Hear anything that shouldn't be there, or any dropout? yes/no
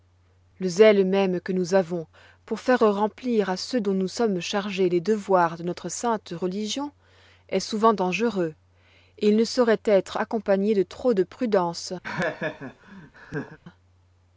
yes